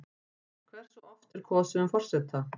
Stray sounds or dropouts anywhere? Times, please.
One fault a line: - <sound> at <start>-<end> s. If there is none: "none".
none